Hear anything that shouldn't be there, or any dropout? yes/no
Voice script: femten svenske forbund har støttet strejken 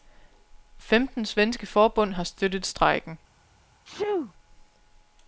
yes